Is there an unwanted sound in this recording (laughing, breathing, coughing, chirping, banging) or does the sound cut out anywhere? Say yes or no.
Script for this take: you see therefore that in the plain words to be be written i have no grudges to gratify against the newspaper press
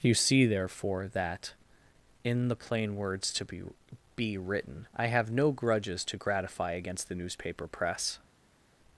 no